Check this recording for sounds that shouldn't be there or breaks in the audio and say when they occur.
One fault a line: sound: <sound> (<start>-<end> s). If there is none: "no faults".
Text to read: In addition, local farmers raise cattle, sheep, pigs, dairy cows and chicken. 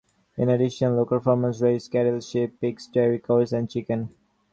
no faults